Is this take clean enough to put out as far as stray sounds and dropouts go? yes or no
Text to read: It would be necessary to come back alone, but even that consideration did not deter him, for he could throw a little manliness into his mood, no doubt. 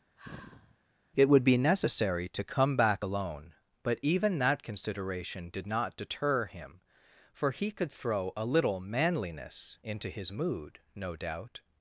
no